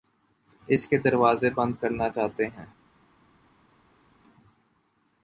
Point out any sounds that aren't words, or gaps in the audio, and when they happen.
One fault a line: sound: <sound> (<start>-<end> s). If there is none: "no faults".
no faults